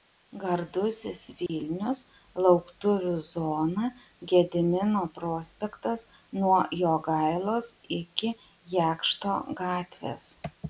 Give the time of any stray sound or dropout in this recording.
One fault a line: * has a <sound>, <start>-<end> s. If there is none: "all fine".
* has a dropout, 1.5-1.5 s